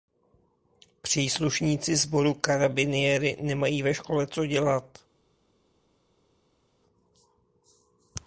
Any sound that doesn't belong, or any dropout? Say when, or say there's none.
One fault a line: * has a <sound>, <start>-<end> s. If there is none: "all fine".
all fine